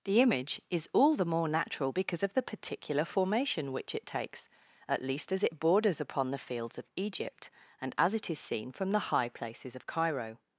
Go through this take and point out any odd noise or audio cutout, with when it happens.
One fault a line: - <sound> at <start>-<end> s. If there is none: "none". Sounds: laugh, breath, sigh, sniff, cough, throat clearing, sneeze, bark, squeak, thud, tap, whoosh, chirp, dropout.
none